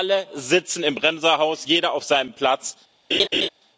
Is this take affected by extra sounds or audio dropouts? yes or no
yes